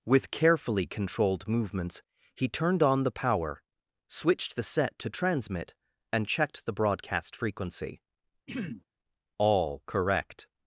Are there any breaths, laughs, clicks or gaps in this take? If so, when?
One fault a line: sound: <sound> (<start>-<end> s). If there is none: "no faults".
sound: throat clearing (8.5-8.8 s)